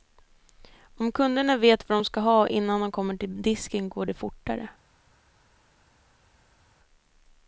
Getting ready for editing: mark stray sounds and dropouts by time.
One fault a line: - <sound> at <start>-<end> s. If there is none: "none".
none